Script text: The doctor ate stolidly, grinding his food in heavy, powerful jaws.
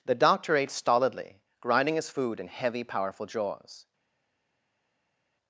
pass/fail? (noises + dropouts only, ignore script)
pass